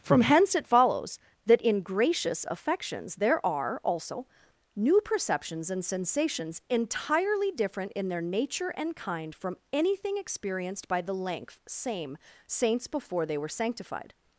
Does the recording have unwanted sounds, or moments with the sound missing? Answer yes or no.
no